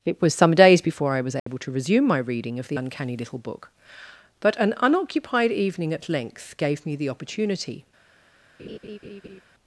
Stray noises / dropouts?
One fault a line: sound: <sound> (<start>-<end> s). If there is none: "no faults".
sound: dropout (1.4-1.5 s)
sound: laugh (8.6-9.4 s)